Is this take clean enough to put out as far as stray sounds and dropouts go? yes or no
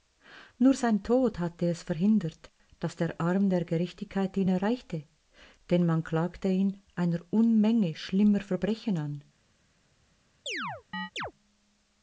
no